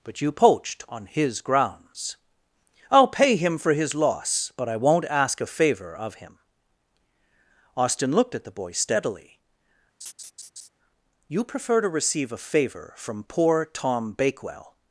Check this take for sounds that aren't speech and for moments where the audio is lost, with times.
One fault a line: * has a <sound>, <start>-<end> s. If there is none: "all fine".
* has a laugh, 10.0-10.7 s